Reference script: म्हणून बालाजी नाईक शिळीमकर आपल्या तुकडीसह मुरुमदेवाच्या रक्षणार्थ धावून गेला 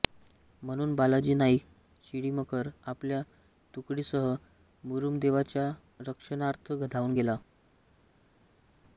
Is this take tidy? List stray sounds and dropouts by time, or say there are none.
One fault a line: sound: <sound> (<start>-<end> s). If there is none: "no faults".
no faults